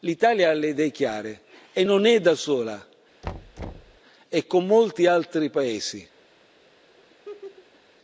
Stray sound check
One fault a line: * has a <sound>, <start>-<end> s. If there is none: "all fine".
* has a thud, 3.2-4.0 s
* has a laugh, 7.0-7.8 s